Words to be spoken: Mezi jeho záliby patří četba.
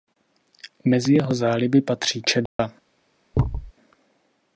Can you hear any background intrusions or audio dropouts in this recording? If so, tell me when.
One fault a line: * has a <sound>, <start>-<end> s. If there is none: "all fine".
* has a dropout, 2.5-2.6 s
* has a thud, 3.3-3.7 s